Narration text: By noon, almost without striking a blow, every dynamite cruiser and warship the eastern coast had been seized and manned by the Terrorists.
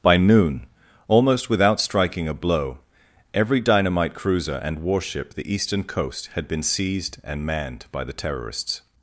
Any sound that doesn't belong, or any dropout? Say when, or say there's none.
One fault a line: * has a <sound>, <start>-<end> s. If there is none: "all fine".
all fine